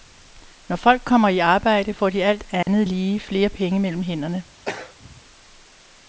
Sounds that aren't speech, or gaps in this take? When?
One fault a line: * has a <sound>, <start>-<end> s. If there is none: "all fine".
* has a dropout, 2.6-2.7 s
* has a throat clearing, 4.6-5.2 s